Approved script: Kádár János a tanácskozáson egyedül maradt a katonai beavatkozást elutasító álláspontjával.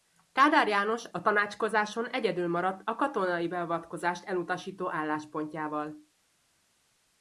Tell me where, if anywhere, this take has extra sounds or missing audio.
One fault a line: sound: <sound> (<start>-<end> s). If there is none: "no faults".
no faults